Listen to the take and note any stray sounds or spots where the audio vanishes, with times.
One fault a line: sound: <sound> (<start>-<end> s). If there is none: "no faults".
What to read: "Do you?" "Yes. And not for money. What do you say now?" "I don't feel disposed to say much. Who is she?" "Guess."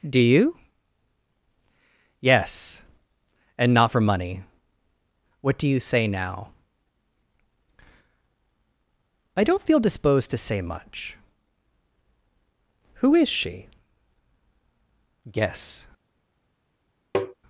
sound: tap (17.1-17.3 s)